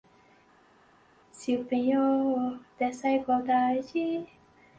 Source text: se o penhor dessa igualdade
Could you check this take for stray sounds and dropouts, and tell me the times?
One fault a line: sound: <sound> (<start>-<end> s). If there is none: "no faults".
no faults